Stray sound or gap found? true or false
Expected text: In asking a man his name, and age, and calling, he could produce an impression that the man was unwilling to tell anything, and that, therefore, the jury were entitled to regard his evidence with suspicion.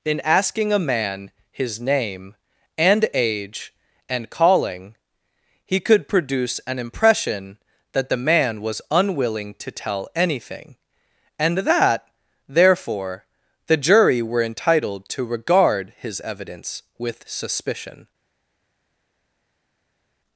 false